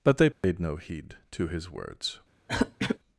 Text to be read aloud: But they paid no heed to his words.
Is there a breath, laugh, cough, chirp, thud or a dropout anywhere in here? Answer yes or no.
yes